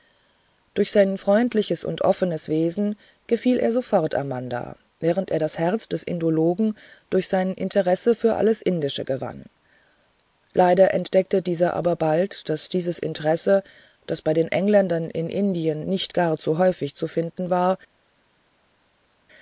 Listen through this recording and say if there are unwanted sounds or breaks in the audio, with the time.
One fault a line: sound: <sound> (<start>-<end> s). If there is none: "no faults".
no faults